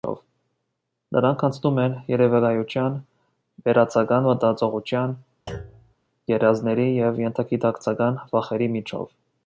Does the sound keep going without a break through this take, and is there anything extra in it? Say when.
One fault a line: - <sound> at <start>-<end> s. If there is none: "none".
- thud at 5.5-5.9 s